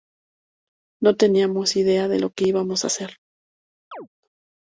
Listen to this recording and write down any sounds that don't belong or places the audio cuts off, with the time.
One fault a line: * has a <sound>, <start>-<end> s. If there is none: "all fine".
* has a chirp, 3.9-4.1 s